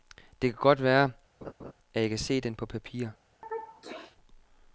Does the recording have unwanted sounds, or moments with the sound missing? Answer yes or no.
yes